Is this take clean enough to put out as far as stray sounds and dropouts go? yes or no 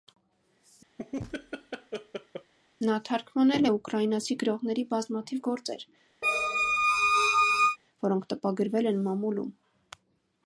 no